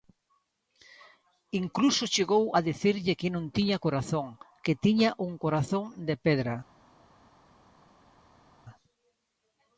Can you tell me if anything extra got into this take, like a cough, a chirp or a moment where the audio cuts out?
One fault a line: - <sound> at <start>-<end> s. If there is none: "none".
none